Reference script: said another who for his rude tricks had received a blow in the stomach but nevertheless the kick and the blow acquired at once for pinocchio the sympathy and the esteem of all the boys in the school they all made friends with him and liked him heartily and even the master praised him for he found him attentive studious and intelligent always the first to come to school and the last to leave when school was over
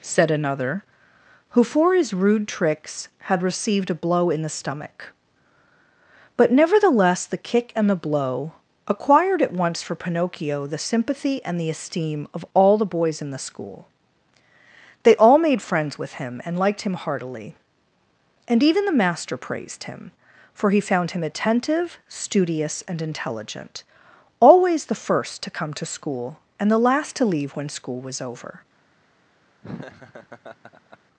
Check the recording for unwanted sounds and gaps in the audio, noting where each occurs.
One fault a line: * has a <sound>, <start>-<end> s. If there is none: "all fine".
* has a laugh, 29.6-31.0 s